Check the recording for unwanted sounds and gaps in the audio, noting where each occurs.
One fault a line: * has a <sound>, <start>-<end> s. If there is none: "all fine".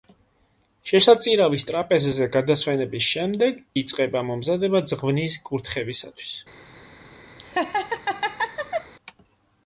* has a laugh, 7.4-8.9 s